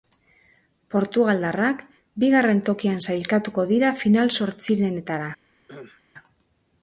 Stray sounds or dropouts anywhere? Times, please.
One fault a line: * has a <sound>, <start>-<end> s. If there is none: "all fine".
* has a cough, 5.7-6.0 s